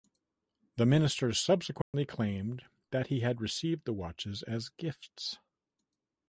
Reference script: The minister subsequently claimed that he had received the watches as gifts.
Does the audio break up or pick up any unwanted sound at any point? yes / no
yes